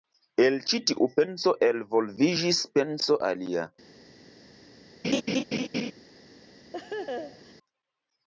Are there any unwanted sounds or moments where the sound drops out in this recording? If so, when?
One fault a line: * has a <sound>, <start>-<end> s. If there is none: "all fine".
* has a laugh, 5.0-5.9 s
* has a laugh, 6.7-7.5 s